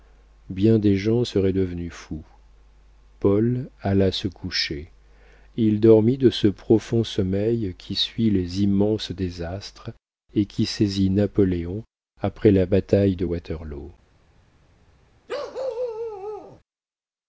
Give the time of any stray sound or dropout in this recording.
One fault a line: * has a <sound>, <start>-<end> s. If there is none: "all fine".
* has a bark, 15.3-16.6 s